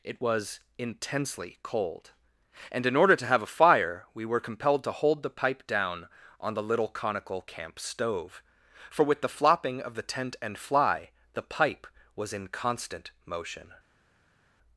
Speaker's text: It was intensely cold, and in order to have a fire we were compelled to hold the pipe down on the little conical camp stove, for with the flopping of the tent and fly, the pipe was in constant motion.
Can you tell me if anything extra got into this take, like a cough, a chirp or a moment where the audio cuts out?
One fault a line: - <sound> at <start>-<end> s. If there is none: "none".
none